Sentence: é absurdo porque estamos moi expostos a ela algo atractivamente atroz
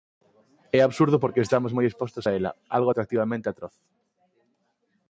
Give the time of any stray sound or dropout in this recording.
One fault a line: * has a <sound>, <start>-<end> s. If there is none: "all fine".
all fine